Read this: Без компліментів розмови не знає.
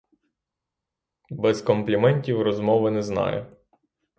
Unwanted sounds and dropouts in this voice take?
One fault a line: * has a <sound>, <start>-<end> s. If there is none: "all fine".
all fine